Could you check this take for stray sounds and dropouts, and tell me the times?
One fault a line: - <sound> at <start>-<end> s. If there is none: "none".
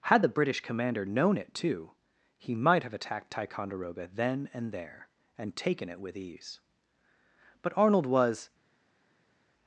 none